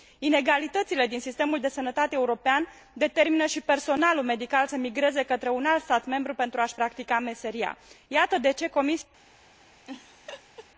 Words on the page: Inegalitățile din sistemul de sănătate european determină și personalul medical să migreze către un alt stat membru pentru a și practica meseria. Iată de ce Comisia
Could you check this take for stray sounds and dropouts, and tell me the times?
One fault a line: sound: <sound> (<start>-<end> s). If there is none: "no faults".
sound: laugh (9.8-10.7 s)